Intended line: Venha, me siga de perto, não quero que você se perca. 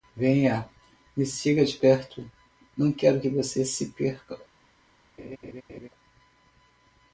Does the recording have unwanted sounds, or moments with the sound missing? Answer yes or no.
yes